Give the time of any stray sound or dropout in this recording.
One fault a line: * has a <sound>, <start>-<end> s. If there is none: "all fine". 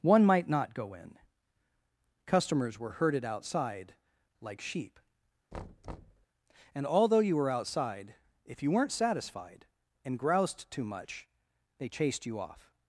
* has a thud, 5.5-6.3 s